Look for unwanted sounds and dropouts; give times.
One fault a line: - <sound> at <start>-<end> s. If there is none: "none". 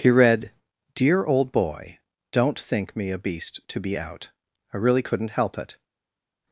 none